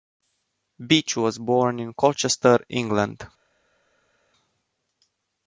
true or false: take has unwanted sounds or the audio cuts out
false